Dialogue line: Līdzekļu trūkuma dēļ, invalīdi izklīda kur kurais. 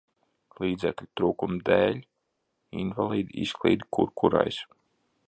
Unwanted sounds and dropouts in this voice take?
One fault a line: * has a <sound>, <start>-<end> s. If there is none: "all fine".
all fine